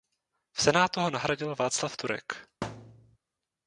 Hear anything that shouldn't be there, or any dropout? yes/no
yes